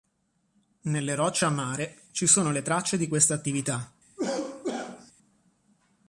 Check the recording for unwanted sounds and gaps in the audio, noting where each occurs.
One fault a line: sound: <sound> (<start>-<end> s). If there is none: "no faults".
sound: cough (4.2-5.1 s)